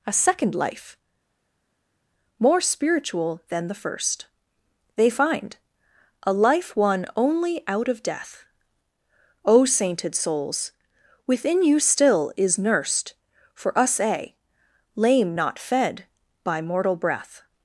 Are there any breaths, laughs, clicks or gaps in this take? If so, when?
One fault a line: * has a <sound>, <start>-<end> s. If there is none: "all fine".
all fine